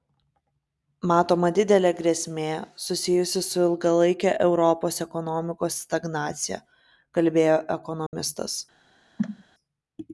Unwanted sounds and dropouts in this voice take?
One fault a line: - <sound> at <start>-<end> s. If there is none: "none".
- dropout at 8.1-8.1 s
- cough at 9.2-9.4 s